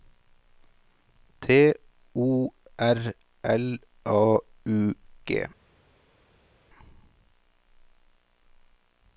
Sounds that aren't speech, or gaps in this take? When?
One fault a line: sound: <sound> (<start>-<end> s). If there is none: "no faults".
no faults